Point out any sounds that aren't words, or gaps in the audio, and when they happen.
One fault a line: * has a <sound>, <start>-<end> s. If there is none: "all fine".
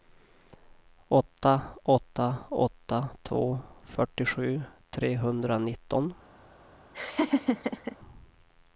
* has a laugh, 6.9-8.0 s